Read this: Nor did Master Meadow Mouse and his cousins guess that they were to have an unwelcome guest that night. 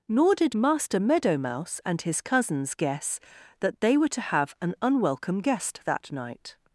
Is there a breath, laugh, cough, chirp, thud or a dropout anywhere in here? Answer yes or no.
no